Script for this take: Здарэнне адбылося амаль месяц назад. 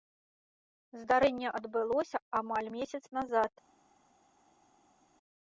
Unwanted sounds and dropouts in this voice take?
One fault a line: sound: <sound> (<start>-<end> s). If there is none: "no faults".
no faults